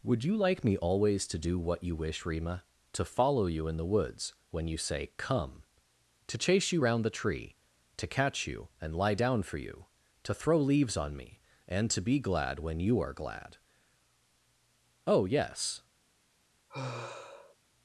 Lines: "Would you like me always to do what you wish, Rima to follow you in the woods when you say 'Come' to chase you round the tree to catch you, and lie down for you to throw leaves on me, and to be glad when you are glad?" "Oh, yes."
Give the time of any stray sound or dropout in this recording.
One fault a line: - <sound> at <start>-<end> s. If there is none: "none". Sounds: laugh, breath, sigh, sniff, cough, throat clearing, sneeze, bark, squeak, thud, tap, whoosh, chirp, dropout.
- sigh at 16.7-17.6 s